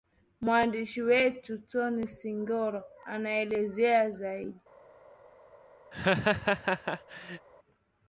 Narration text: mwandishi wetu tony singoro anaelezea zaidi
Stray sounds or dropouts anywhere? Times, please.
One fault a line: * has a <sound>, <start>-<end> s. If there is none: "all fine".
* has a laugh, 5.9-7.5 s